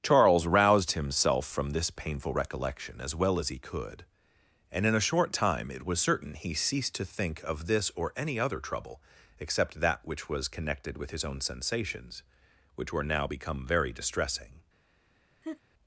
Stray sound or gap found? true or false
true